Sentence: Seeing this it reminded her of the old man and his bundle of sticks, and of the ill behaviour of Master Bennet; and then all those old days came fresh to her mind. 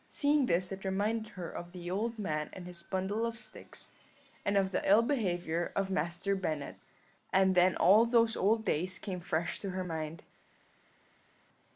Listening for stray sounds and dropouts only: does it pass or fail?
pass